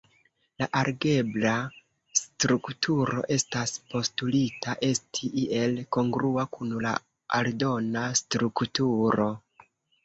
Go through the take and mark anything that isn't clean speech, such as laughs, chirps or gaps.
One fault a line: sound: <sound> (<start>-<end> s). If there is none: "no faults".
no faults